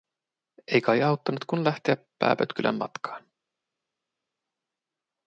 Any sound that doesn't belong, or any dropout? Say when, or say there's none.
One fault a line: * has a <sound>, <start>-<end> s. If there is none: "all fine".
all fine